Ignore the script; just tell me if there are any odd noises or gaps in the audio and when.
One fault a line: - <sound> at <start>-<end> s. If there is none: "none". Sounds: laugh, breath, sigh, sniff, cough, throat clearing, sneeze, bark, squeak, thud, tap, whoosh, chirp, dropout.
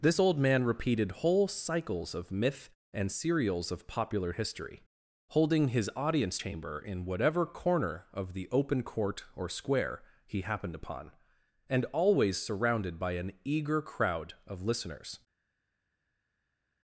none